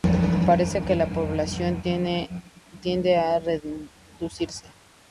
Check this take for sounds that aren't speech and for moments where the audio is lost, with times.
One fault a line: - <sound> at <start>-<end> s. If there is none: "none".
none